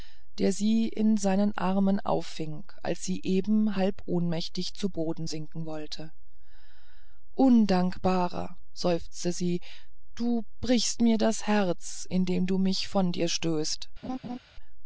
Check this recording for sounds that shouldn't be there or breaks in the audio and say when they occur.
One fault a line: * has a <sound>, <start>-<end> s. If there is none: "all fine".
* has a laugh, 14.0-14.4 s